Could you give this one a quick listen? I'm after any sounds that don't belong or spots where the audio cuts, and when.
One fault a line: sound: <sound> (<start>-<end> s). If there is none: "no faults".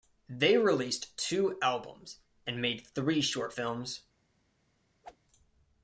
sound: whoosh (5.0-5.2 s)